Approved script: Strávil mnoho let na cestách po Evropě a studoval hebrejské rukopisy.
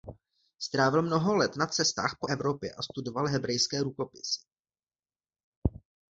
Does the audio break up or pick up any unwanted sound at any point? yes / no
no